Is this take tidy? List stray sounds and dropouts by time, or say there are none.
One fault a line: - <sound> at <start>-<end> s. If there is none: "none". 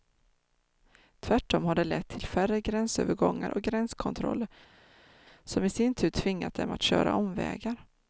none